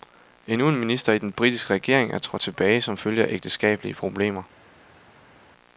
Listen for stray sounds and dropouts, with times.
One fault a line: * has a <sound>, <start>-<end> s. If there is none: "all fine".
all fine